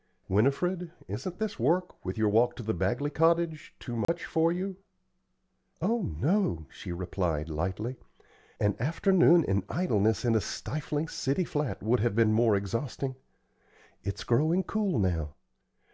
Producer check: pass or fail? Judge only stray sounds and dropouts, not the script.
fail